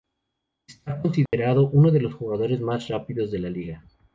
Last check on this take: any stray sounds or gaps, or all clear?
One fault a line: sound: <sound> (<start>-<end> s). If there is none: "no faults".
sound: dropout (1.3-1.3 s)